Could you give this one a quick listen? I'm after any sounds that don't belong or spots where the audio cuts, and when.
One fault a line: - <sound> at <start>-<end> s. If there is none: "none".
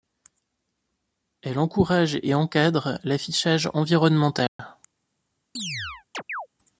- dropout at 4.5-4.6 s
- chirp at 5.6-6.5 s